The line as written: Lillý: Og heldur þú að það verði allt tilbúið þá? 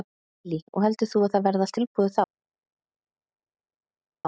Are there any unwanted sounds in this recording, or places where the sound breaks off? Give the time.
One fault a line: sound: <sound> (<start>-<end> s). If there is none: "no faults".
no faults